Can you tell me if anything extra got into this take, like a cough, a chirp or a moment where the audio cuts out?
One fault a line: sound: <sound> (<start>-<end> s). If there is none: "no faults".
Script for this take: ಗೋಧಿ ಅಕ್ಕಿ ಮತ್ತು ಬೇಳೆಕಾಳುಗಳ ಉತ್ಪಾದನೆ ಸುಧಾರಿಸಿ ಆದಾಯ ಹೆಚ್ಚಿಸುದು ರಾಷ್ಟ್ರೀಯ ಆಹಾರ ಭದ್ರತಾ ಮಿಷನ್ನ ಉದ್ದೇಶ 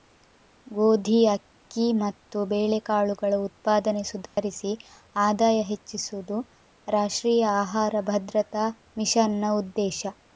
sound: dropout (4.3-4.4 s)